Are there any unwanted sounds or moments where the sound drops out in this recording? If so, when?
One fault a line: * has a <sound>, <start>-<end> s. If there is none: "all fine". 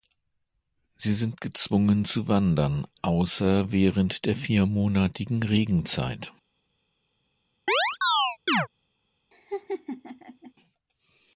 * has a chirp, 7.7-8.7 s
* has a laugh, 9.3-10.5 s